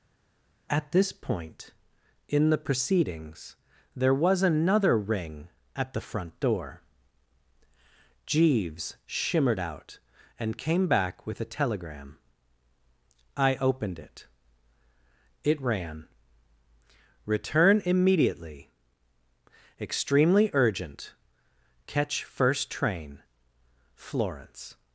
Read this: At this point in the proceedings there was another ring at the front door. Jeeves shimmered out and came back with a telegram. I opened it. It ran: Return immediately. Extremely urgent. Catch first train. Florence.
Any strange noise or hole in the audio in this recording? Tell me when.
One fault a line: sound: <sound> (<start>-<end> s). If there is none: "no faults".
no faults